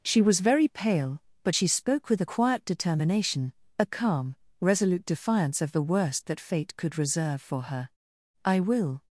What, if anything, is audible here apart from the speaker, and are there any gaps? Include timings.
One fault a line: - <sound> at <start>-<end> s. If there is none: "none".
none